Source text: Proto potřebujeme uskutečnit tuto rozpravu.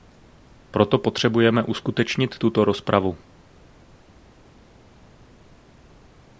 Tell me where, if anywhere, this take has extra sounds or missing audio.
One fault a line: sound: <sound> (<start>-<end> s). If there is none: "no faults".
no faults